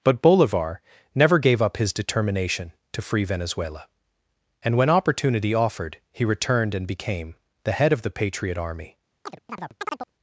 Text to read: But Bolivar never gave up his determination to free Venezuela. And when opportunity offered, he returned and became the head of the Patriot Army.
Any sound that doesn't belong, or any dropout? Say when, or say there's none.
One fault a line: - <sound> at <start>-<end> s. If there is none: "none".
- chirp at 9.3-10.1 s